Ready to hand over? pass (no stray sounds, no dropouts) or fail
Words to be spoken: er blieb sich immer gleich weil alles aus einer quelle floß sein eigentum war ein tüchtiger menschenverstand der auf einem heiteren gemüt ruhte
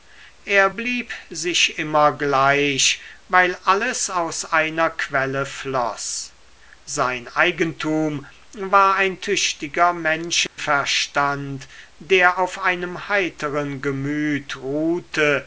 fail